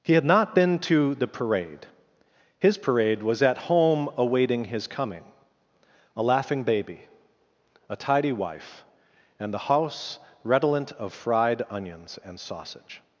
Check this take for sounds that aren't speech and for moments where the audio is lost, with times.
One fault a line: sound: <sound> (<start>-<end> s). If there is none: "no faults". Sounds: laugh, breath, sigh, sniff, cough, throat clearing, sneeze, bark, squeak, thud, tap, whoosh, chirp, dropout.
no faults